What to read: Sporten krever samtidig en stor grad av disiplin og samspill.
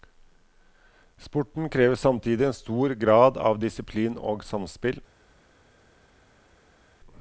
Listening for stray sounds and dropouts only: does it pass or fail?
pass